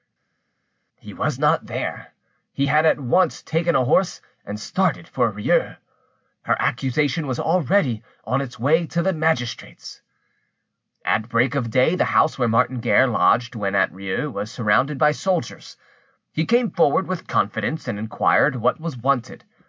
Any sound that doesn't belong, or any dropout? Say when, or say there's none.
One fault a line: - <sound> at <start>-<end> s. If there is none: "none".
none